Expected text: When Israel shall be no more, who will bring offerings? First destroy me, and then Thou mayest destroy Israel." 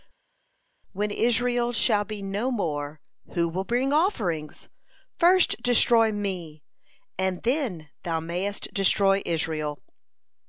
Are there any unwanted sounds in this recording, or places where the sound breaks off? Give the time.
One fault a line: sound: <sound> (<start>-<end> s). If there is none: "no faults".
no faults